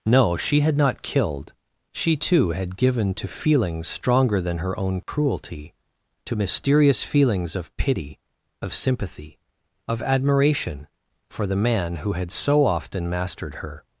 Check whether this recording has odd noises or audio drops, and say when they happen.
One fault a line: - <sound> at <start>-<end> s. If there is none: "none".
- dropout at 5.0-5.1 s